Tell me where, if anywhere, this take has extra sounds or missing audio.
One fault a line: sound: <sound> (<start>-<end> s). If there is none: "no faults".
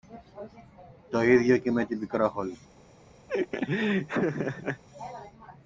sound: laugh (3.3-4.8 s)